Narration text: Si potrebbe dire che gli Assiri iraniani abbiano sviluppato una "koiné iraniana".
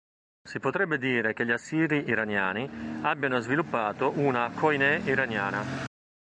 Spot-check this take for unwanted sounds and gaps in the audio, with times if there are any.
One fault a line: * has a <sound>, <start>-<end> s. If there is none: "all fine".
all fine